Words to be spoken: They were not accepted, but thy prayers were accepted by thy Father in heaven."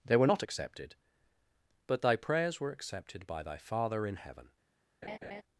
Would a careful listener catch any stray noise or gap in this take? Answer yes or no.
yes